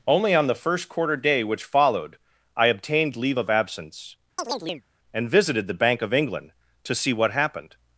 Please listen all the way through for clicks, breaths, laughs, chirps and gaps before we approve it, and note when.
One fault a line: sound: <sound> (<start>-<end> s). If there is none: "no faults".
sound: chirp (4.4-4.9 s)